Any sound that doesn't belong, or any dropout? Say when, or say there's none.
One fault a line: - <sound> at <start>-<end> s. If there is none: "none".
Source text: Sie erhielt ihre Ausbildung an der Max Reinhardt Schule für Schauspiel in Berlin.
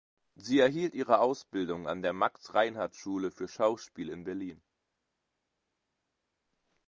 none